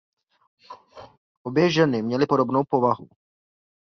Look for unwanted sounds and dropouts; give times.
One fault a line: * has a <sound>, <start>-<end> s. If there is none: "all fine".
* has a throat clearing, 0.6-1.2 s